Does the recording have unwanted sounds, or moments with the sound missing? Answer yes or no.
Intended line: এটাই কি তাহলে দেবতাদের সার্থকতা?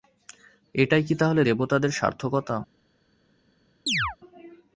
yes